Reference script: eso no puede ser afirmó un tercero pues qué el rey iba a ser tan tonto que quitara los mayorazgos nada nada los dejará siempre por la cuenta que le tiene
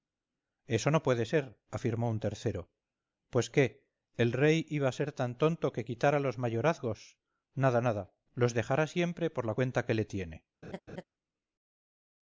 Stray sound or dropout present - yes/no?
yes